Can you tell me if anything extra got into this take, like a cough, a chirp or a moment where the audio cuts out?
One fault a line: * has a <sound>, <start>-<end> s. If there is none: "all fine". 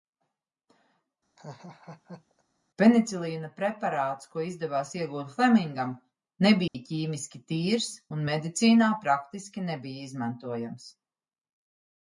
* has a laugh, 1.4-2.4 s
* has a dropout, 6.7-6.7 s